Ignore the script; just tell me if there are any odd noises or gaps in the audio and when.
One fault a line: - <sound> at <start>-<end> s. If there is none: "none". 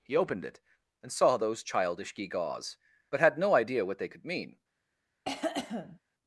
- cough at 5.2-6.0 s